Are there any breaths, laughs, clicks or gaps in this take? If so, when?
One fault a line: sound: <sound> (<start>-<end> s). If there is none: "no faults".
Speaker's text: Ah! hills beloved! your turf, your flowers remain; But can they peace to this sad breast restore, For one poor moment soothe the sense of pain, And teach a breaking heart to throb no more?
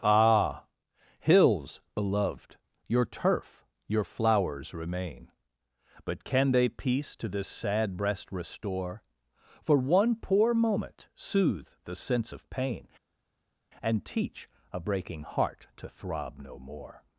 no faults